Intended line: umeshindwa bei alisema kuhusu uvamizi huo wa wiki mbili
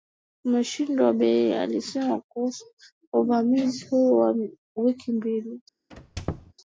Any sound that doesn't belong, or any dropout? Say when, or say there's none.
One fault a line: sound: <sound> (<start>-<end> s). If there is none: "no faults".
sound: squeak (5.9-6.5 s)